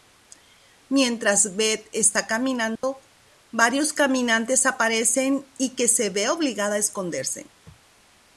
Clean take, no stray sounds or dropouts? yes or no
no